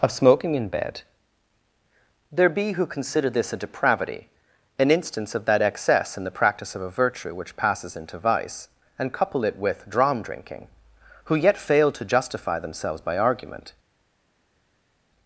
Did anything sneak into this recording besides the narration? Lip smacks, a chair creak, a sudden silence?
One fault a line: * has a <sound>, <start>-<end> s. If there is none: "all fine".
all fine